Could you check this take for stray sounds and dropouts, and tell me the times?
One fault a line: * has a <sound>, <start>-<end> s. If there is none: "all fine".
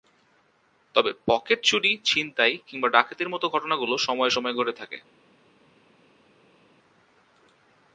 all fine